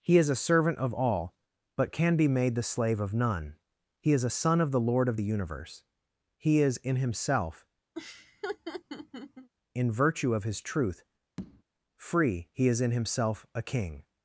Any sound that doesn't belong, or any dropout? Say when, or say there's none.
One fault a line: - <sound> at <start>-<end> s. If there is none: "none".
- laugh at 7.9-9.5 s
- tap at 11.4-11.6 s